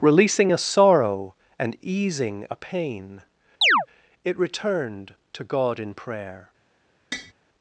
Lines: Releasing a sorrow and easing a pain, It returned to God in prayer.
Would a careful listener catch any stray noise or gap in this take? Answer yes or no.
yes